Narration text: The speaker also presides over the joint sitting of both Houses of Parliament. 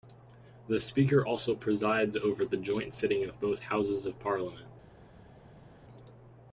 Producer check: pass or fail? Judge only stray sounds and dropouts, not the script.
pass